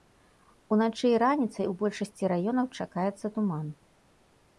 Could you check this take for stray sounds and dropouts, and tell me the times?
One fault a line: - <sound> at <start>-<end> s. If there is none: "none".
none